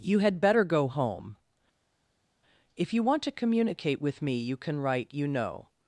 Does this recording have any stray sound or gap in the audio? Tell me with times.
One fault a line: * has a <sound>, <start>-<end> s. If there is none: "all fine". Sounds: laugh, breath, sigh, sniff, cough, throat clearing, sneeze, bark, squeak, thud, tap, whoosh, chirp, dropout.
all fine